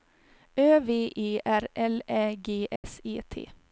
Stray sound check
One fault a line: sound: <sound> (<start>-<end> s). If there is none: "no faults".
sound: dropout (2.8-2.8 s)